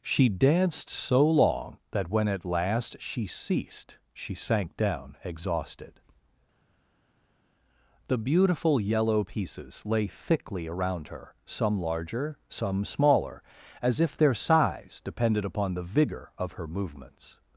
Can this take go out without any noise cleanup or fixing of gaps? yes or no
yes